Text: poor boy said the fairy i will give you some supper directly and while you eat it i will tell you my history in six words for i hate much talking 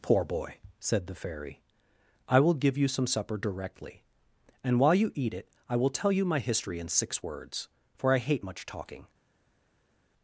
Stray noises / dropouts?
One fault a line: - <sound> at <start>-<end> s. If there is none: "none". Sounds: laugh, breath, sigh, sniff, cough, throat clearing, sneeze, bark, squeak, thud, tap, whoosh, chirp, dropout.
none